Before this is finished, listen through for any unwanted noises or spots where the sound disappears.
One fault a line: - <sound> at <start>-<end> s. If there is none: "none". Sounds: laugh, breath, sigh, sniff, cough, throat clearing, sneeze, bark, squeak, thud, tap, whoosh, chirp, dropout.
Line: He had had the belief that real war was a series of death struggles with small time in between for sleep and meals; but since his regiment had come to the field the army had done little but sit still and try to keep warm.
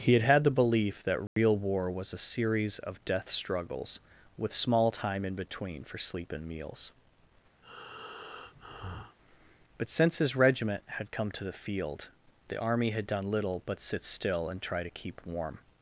- dropout at 1.3-1.4 s
- breath at 7.6-9.2 s